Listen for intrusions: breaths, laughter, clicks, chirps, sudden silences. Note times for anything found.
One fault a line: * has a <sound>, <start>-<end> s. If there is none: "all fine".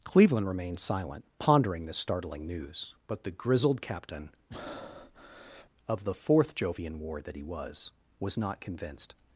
* has a breath, 4.5-5.7 s